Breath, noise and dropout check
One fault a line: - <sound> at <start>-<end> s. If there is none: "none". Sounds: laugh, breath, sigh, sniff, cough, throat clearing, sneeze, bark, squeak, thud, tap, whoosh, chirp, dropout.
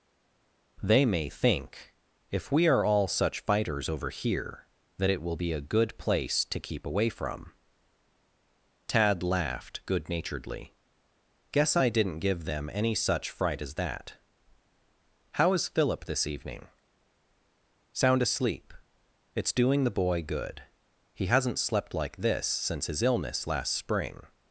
none